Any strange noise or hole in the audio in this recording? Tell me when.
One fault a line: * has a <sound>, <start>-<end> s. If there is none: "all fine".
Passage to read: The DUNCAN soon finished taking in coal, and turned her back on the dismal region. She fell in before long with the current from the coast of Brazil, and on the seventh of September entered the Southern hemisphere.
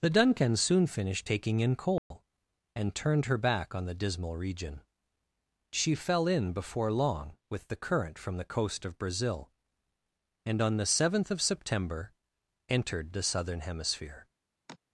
* has a dropout, 2.0-2.1 s
* has a sigh, 14.7-14.8 s